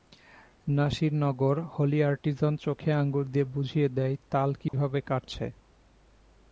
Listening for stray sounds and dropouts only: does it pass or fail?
fail